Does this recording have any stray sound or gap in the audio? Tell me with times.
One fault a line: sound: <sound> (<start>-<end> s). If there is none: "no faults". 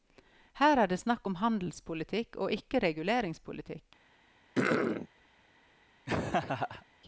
sound: throat clearing (4.5-5.1 s)
sound: laugh (6.1-6.9 s)